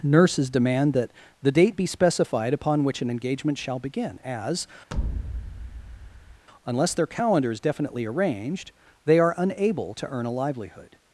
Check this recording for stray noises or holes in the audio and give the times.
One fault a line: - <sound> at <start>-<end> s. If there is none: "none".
- thud at 4.9-6.5 s